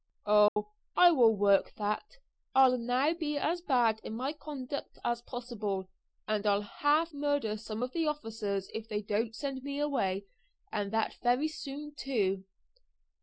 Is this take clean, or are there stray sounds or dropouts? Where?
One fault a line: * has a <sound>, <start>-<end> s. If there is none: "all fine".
* has a dropout, 0.5-0.6 s